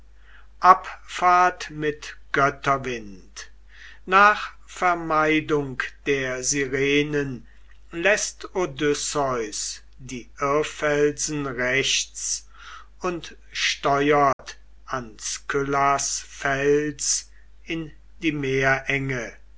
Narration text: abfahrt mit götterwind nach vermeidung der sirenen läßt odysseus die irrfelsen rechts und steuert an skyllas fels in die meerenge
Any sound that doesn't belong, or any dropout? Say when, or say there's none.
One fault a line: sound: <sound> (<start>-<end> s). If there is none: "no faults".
sound: dropout (14.3-14.4 s)